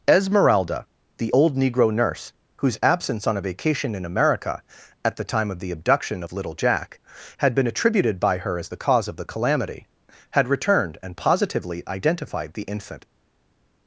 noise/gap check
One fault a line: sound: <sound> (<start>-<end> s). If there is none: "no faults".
no faults